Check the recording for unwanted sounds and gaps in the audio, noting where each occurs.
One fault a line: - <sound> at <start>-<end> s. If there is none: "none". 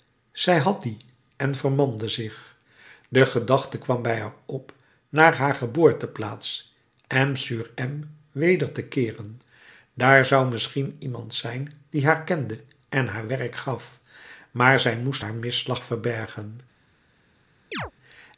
- chirp at 17.7-17.9 s